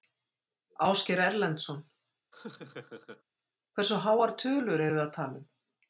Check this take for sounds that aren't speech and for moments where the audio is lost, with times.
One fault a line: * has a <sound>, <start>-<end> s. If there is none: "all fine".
* has a laugh, 2.3-3.2 s